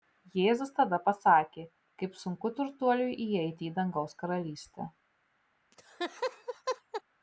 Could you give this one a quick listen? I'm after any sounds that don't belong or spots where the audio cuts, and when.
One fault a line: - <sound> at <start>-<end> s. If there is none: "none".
- laugh at 5.7-7.0 s